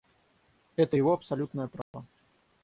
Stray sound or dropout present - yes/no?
yes